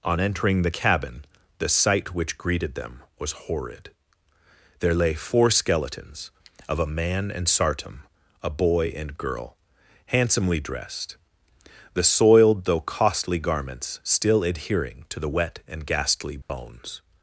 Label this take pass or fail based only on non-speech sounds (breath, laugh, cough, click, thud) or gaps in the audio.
fail